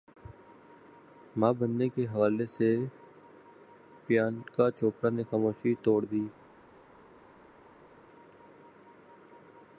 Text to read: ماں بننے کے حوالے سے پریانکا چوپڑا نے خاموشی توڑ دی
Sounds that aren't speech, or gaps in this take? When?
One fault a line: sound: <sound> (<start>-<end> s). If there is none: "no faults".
no faults